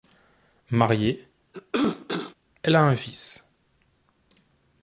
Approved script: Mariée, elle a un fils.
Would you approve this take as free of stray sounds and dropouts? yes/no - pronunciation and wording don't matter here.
no